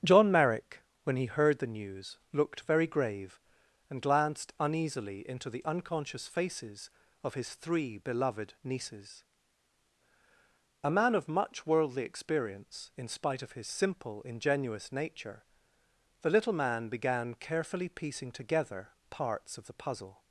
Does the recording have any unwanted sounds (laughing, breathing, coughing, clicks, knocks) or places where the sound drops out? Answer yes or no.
no